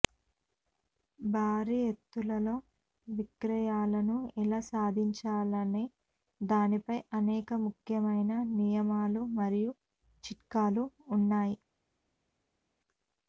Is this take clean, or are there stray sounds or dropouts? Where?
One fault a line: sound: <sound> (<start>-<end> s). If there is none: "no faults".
no faults